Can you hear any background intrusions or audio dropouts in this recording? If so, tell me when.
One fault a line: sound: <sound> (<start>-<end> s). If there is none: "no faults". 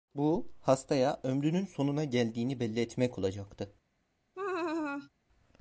sound: laugh (4.3-5.1 s)